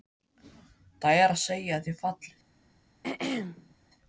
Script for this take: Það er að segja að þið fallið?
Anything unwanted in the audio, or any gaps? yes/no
yes